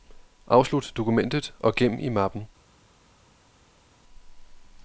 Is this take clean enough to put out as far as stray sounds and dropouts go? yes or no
yes